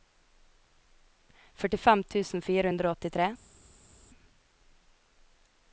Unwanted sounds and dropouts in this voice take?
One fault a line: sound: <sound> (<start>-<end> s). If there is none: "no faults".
no faults